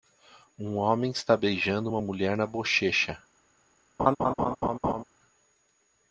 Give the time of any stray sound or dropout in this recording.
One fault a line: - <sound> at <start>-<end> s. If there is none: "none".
- laugh at 4.0-5.0 s